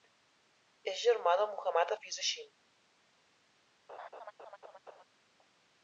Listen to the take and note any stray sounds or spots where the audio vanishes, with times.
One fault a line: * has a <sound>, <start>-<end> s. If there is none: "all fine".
* has a laugh, 3.9-5.0 s